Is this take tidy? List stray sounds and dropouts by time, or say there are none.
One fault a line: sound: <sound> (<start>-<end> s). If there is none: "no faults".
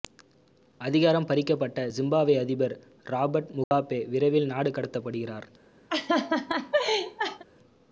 sound: dropout (3.6-3.7 s)
sound: laugh (5.9-7.4 s)